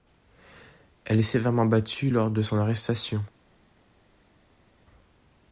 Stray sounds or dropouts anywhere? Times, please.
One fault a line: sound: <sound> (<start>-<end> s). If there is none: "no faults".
no faults